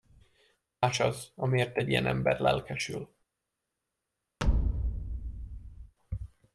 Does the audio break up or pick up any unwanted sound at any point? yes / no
yes